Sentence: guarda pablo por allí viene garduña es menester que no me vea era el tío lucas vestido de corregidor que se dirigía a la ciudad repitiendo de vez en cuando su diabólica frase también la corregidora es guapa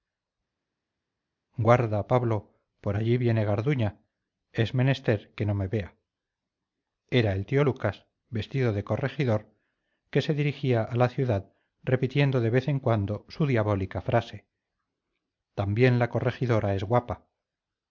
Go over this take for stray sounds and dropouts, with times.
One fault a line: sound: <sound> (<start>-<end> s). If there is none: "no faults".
no faults